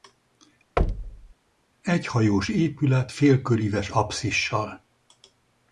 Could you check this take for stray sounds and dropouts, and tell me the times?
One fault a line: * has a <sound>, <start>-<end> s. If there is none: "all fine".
* has a thud, 0.8-1.3 s